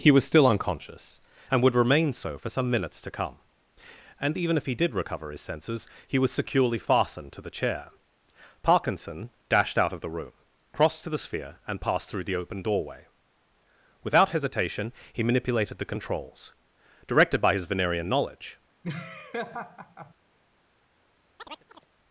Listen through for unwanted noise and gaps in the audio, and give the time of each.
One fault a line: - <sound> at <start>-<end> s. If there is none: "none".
- laugh at 18.8-20.1 s
- chirp at 21.4-21.9 s